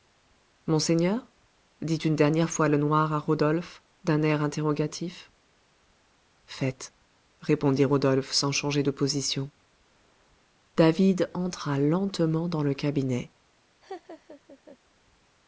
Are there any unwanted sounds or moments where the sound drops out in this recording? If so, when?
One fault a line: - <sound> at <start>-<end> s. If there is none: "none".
- laugh at 13.8-14.8 s